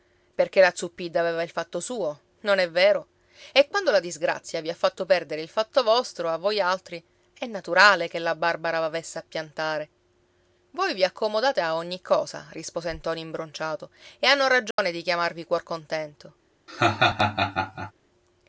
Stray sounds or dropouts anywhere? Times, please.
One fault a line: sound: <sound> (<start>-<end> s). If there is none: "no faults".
sound: dropout (14.7-14.8 s)
sound: laugh (16.7-17.9 s)